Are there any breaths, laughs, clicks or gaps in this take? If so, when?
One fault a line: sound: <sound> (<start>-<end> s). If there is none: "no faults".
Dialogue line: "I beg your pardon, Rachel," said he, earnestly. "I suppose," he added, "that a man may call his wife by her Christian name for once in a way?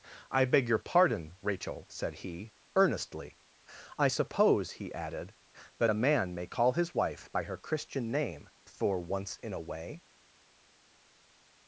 no faults